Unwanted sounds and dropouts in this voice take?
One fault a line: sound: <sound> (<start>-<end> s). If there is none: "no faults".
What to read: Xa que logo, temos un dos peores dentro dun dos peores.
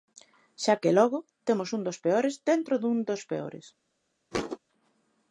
sound: thud (4.3-4.6 s)